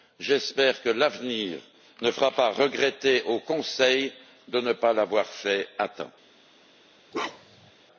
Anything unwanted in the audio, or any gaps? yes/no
yes